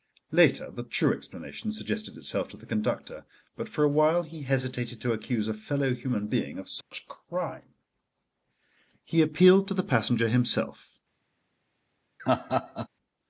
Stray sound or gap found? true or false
true